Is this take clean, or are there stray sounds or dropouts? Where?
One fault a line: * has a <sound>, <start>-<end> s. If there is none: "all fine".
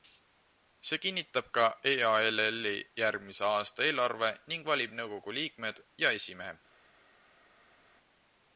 all fine